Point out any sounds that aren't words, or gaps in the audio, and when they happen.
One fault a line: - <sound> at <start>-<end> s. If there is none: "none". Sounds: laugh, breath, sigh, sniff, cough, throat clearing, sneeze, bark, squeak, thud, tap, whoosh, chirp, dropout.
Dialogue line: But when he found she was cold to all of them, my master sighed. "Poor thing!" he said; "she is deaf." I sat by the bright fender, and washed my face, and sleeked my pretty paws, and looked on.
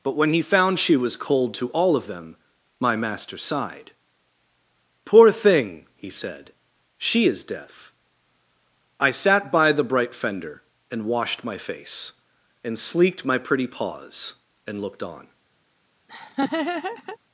- laugh at 16.1-17.2 s